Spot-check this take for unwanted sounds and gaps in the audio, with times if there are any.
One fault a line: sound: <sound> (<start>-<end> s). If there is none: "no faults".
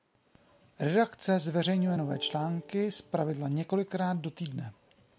no faults